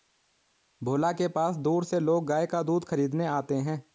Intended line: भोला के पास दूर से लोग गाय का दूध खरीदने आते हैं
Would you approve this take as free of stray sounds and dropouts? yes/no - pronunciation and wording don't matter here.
yes